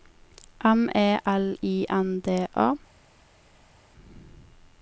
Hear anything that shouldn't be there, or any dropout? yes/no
no